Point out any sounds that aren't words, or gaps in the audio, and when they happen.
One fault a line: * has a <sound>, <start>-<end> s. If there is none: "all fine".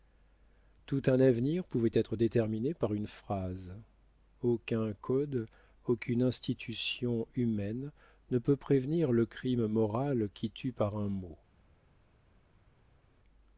all fine